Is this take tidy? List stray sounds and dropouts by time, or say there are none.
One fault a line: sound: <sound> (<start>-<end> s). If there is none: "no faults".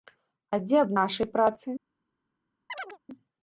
sound: chirp (2.7-3.0 s)